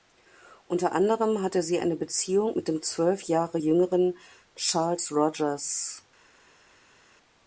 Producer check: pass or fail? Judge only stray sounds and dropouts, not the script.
pass